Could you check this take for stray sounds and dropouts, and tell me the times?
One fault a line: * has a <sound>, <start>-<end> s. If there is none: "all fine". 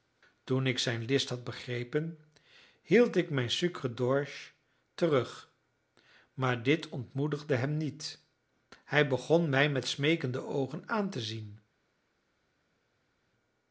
all fine